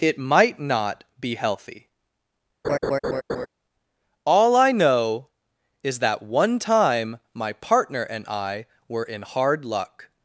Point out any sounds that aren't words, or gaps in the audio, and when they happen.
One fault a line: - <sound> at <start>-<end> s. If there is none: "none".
- laugh at 2.6-3.5 s